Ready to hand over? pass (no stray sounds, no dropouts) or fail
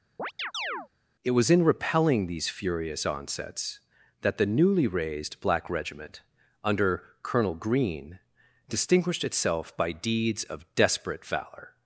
fail